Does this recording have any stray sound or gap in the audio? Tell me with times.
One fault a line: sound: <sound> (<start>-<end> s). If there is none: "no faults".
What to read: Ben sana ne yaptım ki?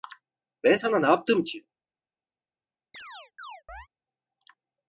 sound: chirp (2.9-3.9 s)